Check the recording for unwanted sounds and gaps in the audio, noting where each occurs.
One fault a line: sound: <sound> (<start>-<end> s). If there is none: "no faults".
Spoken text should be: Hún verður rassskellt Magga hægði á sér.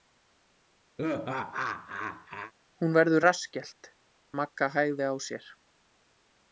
sound: laugh (1.0-2.5 s)